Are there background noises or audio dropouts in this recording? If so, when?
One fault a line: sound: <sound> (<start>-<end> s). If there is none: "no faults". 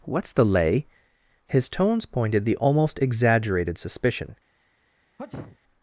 sound: sneeze (5.2-5.6 s)